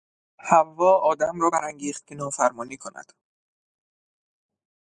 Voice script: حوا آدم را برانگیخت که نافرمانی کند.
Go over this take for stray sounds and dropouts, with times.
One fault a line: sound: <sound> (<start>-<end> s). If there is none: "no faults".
no faults